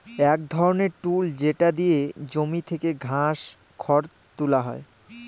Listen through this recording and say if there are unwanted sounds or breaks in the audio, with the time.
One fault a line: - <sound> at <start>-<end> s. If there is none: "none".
none